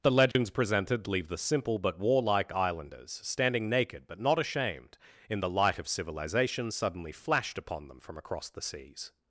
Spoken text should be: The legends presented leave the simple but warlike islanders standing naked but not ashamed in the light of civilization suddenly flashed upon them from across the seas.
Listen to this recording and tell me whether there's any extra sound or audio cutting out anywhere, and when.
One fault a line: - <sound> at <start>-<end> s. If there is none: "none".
- dropout at 0.3-0.4 s